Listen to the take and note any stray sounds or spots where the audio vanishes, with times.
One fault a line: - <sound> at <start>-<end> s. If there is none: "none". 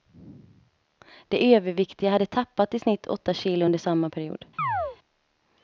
- chirp at 4.6-5.0 s